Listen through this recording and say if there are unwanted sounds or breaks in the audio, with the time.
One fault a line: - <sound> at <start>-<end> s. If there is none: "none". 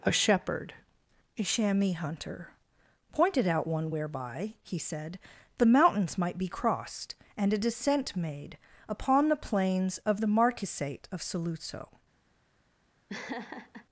- laugh at 13.1-13.9 s